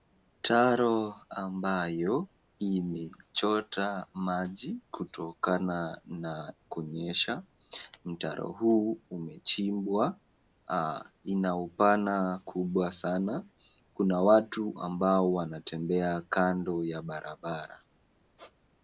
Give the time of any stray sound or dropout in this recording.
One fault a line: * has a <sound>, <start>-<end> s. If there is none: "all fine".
* has a squeak, 18.4-18.6 s